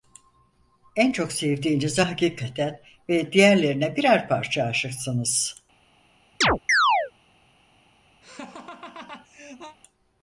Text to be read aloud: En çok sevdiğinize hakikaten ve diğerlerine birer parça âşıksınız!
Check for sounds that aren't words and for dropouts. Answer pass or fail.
fail